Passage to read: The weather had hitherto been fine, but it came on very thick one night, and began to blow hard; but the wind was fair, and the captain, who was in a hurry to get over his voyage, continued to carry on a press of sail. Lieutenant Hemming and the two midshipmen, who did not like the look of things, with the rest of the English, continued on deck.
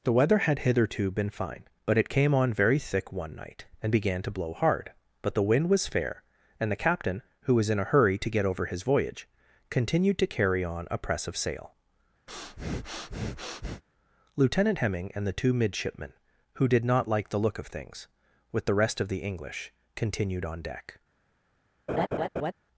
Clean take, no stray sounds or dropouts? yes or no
no